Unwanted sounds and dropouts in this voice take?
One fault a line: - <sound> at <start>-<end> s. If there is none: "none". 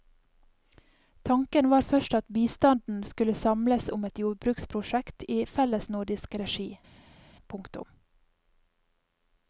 none